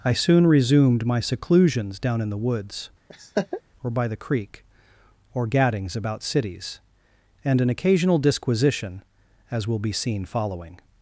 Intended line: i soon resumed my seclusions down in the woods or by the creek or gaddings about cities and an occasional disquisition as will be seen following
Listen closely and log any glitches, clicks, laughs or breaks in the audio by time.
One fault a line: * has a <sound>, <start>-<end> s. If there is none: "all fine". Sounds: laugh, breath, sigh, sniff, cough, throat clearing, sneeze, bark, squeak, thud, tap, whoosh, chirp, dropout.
* has a laugh, 3.1-3.6 s